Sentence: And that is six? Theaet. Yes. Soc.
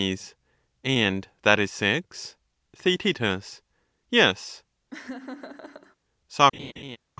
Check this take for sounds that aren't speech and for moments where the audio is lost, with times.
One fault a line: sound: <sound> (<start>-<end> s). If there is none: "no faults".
sound: laugh (4.9-6.0 s)
sound: laugh (6.5-7.0 s)